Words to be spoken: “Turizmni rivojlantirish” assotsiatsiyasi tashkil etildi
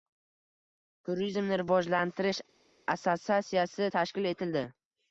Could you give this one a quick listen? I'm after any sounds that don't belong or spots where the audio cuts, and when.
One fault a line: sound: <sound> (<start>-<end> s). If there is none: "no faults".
no faults